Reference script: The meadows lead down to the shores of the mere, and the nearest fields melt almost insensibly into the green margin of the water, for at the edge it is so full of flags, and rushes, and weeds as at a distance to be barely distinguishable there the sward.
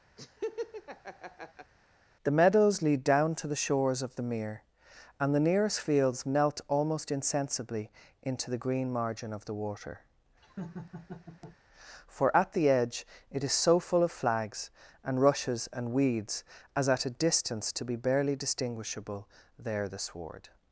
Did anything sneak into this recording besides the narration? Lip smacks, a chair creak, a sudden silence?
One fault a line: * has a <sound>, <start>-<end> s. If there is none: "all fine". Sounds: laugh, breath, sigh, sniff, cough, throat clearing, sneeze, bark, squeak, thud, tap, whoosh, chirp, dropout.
* has a laugh, 0.2-1.7 s
* has a laugh, 10.4-11.6 s